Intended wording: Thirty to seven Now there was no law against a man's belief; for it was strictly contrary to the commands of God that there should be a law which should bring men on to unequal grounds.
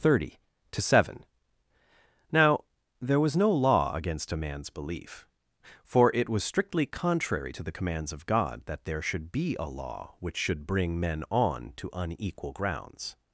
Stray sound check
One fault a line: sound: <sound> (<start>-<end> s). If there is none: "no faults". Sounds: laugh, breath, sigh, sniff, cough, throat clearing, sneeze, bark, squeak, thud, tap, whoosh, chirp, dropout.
no faults